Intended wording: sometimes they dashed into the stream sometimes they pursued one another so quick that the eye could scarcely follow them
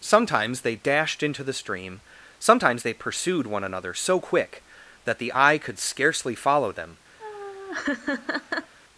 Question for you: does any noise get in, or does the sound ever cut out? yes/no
yes